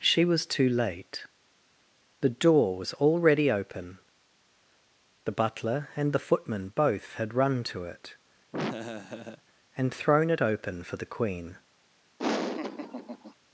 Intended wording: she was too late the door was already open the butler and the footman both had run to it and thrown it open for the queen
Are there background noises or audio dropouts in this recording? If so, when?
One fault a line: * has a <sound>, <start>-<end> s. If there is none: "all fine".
* has a laugh, 8.5-9.4 s
* has a laugh, 12.2-13.3 s